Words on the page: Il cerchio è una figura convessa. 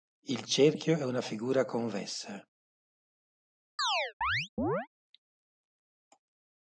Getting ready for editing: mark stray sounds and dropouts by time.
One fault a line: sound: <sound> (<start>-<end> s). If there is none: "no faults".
sound: chirp (3.8-4.9 s)